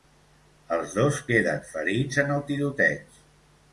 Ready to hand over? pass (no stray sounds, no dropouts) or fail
pass